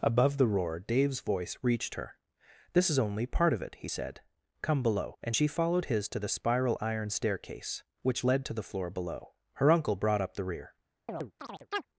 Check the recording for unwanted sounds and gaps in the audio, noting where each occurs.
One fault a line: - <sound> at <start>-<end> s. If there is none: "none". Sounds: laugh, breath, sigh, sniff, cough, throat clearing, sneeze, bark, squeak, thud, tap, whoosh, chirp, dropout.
- chirp at 11.1-11.9 s